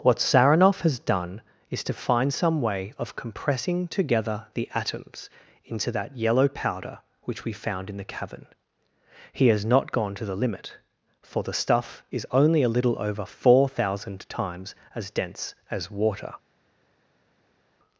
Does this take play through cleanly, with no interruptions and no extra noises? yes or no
yes